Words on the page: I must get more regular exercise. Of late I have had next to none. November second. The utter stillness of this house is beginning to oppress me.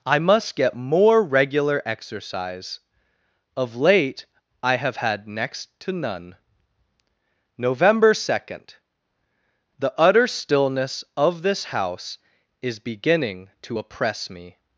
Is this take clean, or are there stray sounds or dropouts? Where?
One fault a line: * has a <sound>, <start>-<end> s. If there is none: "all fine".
all fine